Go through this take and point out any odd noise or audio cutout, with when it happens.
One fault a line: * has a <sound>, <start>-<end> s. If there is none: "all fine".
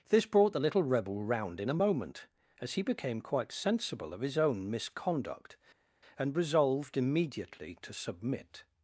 all fine